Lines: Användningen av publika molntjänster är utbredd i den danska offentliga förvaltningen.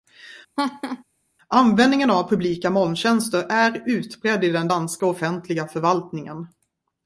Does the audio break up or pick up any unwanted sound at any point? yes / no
yes